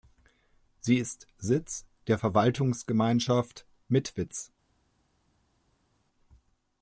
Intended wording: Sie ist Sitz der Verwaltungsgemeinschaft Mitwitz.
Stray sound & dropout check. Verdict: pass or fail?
pass